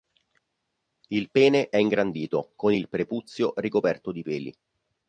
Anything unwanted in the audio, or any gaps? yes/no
no